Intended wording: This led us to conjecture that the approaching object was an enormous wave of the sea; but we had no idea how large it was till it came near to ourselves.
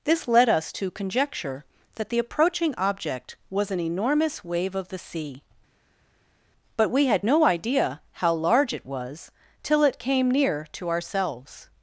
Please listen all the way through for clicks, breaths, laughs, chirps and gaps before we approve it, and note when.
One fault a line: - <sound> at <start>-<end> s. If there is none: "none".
none